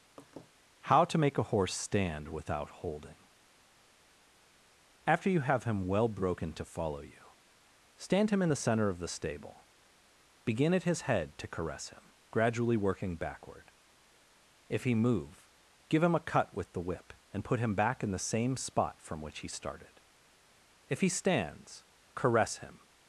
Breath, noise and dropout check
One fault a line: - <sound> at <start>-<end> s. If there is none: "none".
- laugh at 0.2-0.5 s